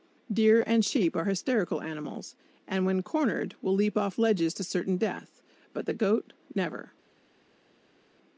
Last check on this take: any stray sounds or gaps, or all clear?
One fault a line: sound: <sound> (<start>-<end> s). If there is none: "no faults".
no faults